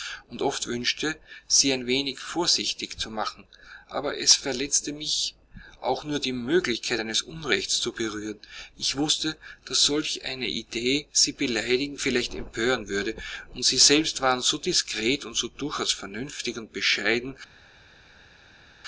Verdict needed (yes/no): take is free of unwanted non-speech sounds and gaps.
yes